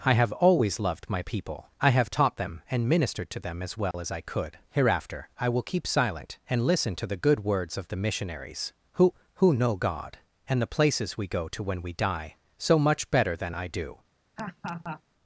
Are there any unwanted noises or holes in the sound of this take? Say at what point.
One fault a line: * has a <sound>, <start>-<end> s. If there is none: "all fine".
* has a dropout, 3.9-3.9 s
* has a laugh, 14.4-15.0 s